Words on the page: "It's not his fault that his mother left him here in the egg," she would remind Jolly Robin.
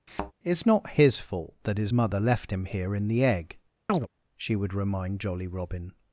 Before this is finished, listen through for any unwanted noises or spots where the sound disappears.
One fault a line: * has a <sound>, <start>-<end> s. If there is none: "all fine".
* has a thud, 0.1-0.3 s
* has a chirp, 3.9-4.1 s